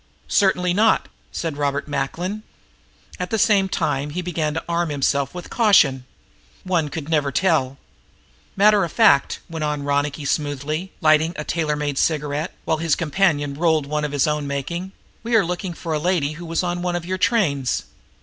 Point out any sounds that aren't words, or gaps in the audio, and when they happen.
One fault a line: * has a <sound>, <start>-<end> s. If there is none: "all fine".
all fine